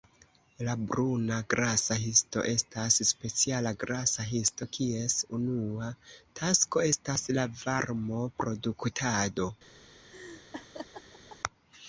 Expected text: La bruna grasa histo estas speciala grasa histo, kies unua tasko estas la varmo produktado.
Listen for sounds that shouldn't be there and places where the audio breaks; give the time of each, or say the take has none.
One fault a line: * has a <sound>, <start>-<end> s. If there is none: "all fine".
* has a laugh, 10.1-11.4 s